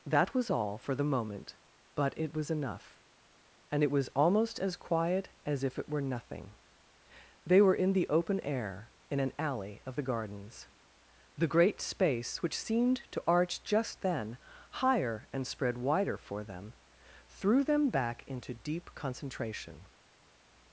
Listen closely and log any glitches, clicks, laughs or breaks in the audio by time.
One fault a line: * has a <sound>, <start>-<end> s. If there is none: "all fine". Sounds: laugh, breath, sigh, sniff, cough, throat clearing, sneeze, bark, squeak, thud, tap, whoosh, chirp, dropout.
all fine